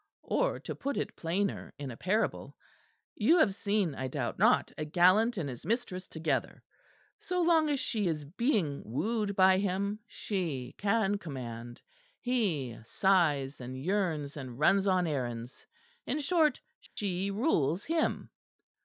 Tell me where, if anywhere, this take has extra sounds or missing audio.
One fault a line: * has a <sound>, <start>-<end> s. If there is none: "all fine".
* has a dropout, 16.9-17.0 s